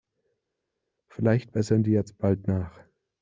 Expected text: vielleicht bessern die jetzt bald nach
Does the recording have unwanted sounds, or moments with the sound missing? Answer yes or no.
no